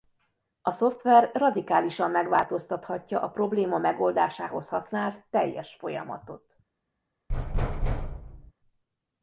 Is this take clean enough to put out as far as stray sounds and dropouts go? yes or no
no